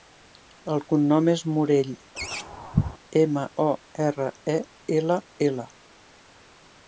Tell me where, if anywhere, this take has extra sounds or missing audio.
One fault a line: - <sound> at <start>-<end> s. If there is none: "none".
- laugh at 2.2-3.0 s